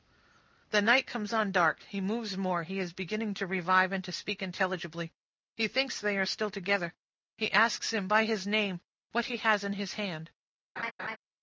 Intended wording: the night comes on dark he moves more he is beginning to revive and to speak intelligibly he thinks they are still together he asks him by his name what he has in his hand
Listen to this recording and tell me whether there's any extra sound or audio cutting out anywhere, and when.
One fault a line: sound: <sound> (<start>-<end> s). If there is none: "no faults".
sound: laugh (10.8-11.2 s)